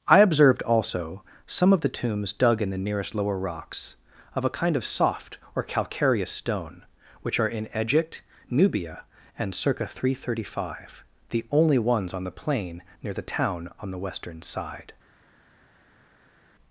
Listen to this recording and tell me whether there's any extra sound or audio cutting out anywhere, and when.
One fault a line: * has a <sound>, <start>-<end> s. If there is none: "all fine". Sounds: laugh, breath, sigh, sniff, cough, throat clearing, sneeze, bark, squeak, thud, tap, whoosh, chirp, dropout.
all fine